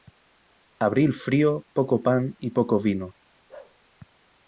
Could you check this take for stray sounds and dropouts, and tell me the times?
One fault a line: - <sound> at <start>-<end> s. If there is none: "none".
- bark at 3.5-3.8 s